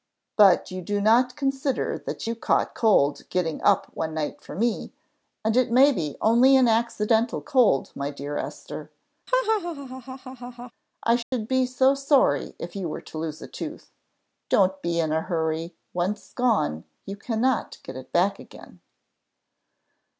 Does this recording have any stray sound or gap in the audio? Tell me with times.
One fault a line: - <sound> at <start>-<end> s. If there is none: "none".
- laugh at 9.3-10.7 s
- dropout at 11.2-11.3 s